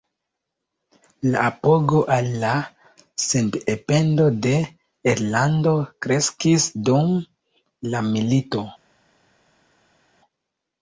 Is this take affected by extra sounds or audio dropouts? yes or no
no